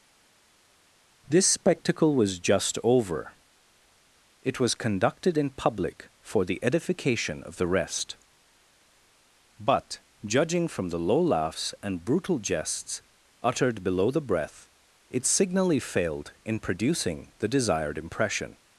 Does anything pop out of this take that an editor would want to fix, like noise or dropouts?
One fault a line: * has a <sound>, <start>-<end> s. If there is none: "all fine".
all fine